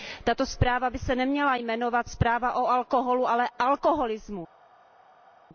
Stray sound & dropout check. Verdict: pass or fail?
pass